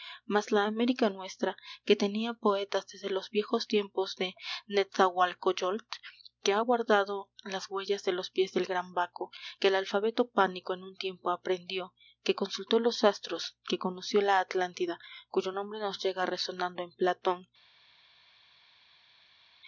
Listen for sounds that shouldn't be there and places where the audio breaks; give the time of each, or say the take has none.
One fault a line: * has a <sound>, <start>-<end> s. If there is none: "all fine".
all fine